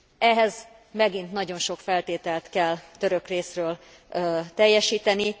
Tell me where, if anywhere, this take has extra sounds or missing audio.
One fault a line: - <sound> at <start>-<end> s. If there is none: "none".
none